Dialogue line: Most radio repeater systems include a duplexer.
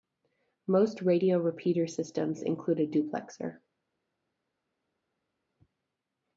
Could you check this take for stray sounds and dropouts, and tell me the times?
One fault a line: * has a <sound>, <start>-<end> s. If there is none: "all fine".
all fine